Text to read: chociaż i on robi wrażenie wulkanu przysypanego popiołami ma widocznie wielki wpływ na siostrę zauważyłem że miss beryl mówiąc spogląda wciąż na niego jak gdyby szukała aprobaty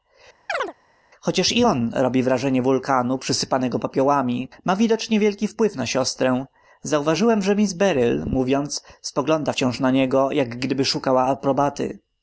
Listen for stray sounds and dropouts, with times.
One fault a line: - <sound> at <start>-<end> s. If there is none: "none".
- chirp at 0.5-0.7 s